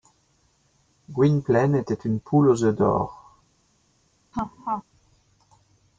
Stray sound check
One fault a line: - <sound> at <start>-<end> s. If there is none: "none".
- laugh at 4.3-4.8 s